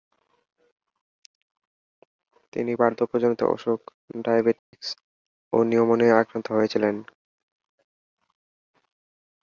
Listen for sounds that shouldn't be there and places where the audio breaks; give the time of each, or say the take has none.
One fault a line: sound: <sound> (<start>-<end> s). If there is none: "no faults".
sound: dropout (4.6-4.7 s)